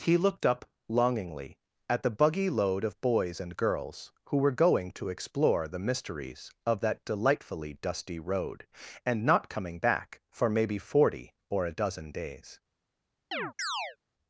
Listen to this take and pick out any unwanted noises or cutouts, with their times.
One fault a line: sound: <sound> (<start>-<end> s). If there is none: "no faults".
sound: chirp (13.3-14.0 s)